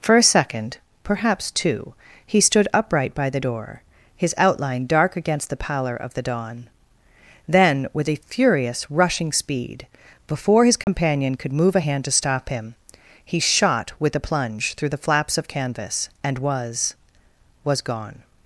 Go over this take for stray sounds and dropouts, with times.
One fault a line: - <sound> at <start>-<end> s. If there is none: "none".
- dropout at 10.8-10.9 s